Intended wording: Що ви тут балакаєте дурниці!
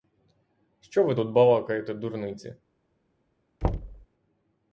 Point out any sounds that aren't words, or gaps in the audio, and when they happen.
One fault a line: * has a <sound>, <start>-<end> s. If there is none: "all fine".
* has a thud, 3.6-4.1 s